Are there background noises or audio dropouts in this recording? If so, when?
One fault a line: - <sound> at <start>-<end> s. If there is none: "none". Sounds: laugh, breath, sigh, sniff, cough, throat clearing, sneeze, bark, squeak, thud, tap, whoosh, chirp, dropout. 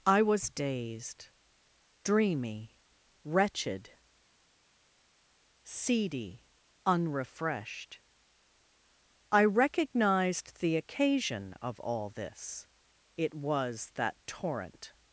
none